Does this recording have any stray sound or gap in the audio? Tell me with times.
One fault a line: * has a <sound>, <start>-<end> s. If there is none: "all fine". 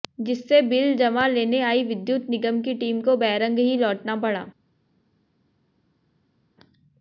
all fine